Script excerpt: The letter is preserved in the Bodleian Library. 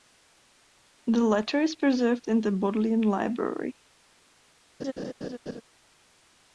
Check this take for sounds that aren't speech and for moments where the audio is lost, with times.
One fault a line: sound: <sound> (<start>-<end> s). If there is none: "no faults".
sound: laugh (4.8-5.6 s)